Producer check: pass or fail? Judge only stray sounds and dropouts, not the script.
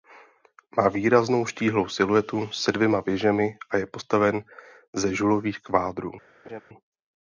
fail